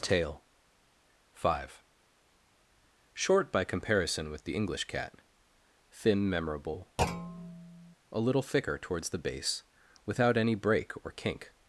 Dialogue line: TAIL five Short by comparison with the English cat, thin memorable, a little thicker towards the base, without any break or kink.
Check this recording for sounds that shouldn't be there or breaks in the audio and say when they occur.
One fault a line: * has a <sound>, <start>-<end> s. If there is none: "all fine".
* has a thud, 7.0-8.0 s